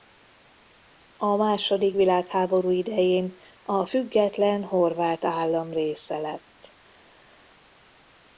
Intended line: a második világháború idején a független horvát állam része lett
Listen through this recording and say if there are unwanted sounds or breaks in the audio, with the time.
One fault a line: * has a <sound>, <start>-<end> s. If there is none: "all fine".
all fine